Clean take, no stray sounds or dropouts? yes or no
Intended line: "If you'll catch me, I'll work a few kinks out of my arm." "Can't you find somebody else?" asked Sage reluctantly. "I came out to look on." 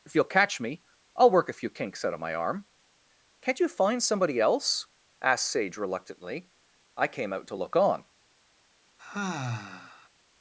no